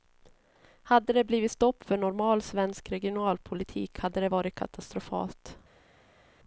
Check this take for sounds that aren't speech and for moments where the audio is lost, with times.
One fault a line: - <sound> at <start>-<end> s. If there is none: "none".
none